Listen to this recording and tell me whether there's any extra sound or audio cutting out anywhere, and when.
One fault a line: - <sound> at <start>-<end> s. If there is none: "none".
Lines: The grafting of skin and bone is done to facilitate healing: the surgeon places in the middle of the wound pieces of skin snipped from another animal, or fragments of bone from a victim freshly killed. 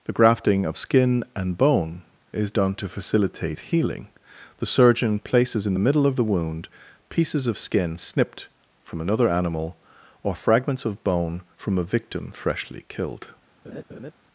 - laugh at 13.6-14.1 s